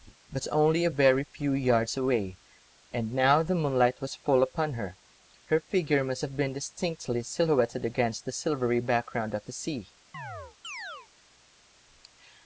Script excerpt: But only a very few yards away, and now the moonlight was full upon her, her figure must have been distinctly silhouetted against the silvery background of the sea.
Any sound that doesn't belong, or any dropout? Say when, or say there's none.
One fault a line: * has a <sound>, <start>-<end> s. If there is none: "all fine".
* has a chirp, 10.1-11.1 s